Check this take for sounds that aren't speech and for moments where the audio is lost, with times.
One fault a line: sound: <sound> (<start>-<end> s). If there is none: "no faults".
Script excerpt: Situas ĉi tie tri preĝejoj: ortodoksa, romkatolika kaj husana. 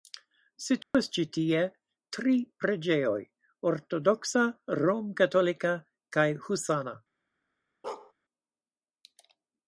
sound: dropout (0.8-0.9 s)
sound: bark (7.8-8.1 s)